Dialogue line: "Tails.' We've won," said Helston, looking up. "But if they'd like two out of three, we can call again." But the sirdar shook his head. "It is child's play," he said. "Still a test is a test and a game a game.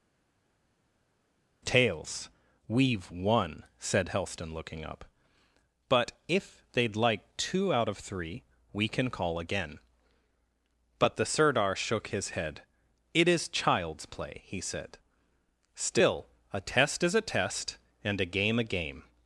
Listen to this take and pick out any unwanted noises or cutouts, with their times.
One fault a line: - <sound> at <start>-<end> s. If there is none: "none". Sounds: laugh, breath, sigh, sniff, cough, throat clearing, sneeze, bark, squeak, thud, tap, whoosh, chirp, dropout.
none